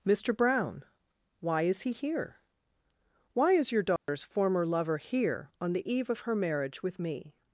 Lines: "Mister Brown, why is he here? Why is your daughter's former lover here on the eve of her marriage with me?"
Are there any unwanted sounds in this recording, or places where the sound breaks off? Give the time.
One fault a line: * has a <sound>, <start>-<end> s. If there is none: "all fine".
* has a dropout, 4.0-4.1 s